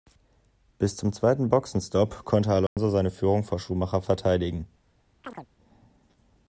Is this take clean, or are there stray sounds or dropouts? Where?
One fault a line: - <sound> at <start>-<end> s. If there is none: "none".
- dropout at 2.7-2.8 s
- chirp at 5.2-5.5 s